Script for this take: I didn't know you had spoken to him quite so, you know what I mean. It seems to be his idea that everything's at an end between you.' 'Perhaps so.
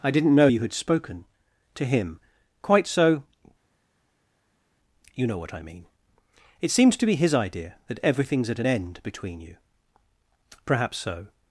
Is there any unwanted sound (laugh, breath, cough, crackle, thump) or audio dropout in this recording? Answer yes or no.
no